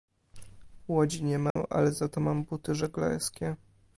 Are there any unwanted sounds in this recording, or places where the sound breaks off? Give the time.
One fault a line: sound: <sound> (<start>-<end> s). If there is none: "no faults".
sound: dropout (1.5-1.6 s)